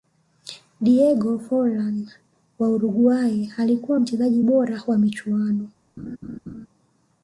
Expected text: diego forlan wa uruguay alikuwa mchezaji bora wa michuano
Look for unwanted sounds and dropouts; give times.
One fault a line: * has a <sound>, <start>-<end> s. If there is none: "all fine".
* has a laugh, 6.0-6.7 s